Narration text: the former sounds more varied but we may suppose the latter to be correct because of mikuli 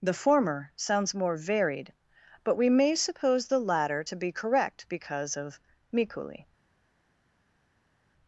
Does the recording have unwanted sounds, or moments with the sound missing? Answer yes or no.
no